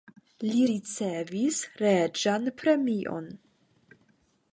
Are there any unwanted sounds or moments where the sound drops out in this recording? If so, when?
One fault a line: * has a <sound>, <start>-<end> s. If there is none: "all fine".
all fine